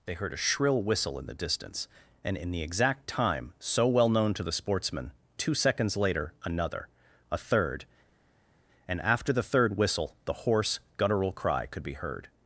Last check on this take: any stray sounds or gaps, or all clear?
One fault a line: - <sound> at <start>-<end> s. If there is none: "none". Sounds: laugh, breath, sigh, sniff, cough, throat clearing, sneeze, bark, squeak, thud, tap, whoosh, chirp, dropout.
none